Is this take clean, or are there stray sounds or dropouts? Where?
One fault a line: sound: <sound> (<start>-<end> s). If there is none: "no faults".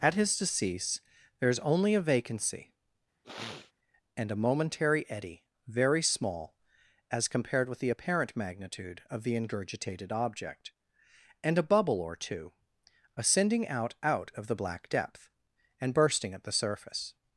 sound: sniff (3.2-3.7 s)